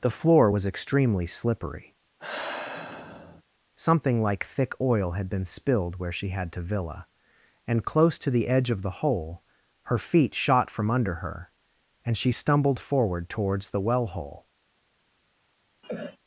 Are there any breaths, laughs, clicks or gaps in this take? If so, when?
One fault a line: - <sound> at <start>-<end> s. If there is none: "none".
- sigh at 2.2-3.4 s
- cough at 15.8-16.2 s